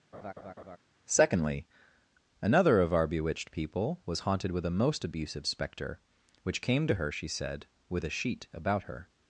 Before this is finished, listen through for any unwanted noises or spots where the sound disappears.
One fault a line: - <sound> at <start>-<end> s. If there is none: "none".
- laugh at 0.1-0.8 s